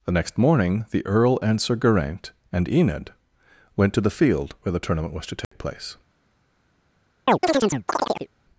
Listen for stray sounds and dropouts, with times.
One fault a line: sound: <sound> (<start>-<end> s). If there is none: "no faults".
sound: dropout (5.4-5.5 s)
sound: chirp (7.3-8.3 s)